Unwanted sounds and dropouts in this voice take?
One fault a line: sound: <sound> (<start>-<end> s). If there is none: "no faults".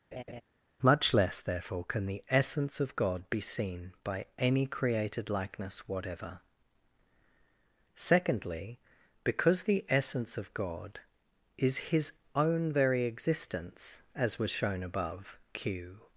sound: laugh (0.1-0.4 s)